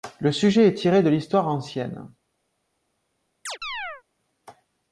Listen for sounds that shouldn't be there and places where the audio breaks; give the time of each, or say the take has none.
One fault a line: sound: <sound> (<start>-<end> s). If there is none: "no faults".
sound: chirp (3.5-4.0 s)